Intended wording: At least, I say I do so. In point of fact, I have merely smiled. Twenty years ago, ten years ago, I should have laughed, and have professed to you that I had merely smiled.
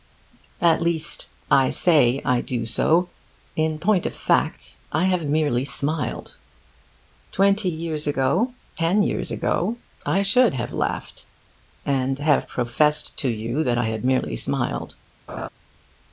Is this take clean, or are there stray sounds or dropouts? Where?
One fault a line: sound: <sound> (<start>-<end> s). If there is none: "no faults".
sound: laugh (15.3-15.5 s)